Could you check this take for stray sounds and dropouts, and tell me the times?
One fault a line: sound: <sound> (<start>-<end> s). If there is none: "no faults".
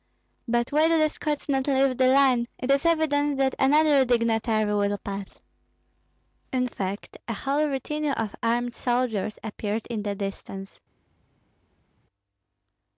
no faults